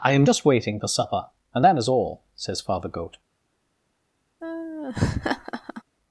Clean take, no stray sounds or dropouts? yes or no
no